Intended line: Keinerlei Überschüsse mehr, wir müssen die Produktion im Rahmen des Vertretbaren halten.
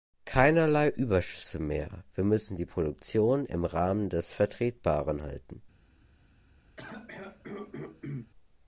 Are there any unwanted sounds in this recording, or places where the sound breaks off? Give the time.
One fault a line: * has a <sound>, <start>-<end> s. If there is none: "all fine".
* has a throat clearing, 6.8-8.3 s